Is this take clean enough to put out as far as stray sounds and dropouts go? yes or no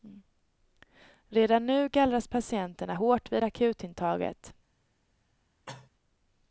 no